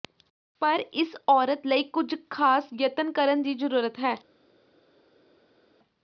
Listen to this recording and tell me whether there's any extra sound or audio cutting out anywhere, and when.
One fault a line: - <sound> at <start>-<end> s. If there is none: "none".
none